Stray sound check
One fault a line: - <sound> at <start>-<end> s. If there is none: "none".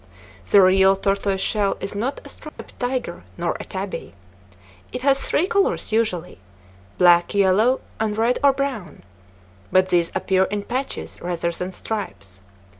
- dropout at 2.5-2.6 s